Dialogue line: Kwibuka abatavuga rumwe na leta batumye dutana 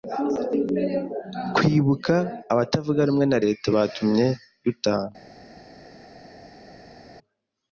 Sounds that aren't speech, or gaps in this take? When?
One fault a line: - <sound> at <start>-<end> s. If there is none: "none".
none